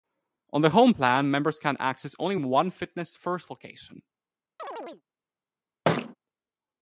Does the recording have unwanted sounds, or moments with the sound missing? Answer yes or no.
yes